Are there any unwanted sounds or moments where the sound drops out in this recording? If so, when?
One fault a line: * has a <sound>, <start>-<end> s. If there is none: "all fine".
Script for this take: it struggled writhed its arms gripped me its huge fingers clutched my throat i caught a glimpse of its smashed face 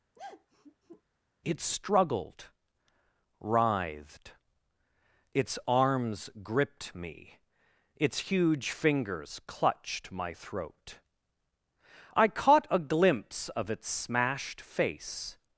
* has a sigh, 0.1-1.0 s